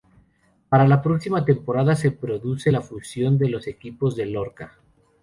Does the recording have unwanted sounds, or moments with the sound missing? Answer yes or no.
no